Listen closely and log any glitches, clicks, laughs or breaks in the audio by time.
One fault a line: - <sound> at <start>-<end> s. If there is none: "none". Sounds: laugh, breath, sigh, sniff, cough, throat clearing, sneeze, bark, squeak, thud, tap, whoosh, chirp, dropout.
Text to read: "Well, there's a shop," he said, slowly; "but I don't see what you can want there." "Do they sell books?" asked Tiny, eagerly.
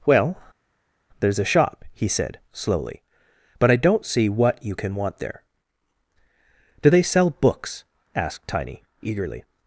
none